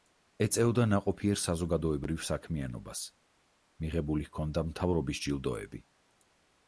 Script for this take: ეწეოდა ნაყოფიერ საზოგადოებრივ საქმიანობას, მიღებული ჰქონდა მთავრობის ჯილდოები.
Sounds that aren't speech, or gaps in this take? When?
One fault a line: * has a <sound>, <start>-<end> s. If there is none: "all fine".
all fine